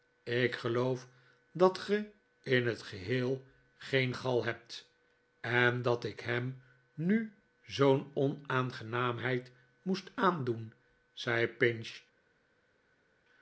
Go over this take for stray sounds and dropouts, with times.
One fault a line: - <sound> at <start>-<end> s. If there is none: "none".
none